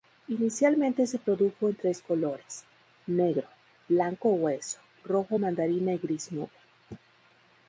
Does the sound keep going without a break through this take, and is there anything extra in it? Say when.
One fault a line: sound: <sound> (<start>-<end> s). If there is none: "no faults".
no faults